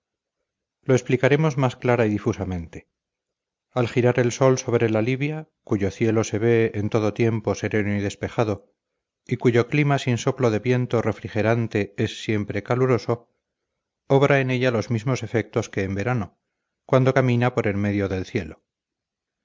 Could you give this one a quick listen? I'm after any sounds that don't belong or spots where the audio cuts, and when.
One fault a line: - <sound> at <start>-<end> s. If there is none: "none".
none